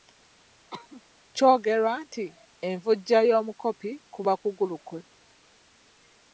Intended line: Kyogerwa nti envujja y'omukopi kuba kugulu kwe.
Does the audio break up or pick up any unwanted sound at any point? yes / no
yes